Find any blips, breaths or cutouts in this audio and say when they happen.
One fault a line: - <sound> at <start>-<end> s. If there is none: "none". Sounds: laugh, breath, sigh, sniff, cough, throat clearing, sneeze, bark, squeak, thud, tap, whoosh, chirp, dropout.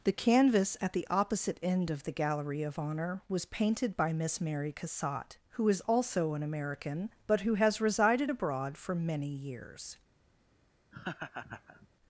- laugh at 10.9-11.9 s